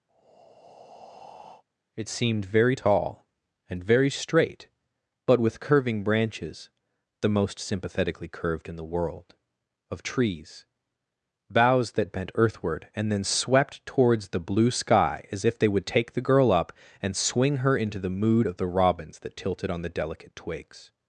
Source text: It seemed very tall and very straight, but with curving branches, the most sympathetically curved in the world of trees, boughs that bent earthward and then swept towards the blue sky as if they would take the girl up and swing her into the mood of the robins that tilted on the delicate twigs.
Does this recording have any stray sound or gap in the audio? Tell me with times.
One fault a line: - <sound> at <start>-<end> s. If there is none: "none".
- breath at 0.1-1.6 s